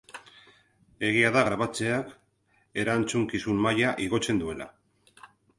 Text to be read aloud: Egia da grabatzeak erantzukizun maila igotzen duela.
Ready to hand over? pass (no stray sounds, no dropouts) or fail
pass